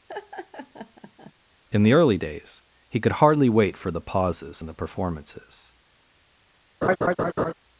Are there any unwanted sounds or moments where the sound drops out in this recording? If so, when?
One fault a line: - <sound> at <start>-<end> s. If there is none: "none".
- laugh at 0.1-1.3 s
- laugh at 6.8-7.5 s